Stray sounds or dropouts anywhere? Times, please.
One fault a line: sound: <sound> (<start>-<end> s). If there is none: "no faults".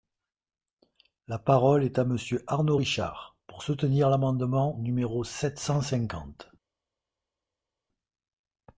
no faults